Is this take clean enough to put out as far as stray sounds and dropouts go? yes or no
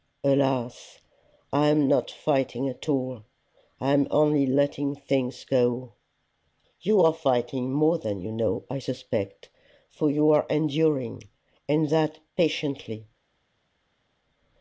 yes